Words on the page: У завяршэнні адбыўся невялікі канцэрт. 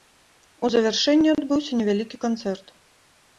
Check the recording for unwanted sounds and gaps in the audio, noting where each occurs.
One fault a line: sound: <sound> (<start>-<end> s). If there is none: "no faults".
no faults